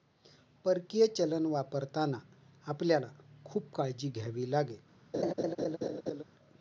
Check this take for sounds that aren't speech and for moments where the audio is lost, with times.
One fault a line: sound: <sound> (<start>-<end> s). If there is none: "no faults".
sound: laugh (5.1-6.2 s)